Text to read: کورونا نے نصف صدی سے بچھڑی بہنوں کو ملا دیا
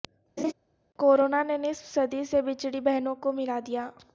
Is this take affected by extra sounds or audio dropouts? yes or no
yes